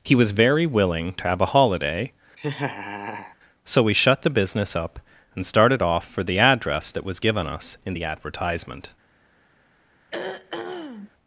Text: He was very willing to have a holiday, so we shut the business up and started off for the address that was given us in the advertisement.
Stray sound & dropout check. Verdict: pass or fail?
fail